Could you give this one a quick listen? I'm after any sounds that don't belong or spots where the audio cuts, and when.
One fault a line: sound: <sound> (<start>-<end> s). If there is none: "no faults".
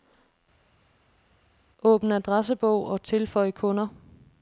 no faults